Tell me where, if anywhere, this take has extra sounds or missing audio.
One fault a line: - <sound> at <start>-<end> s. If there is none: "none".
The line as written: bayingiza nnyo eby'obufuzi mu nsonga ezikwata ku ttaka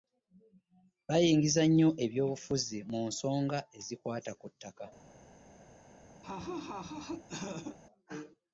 - laugh at 6.2-7.8 s